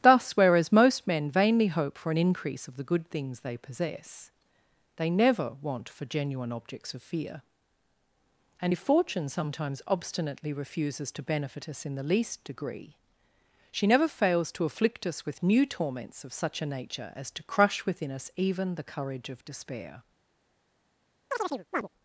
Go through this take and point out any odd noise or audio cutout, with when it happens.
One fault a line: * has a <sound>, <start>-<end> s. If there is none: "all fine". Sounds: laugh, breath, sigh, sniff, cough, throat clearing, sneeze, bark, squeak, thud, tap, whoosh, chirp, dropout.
* has a chirp, 21.3-21.9 s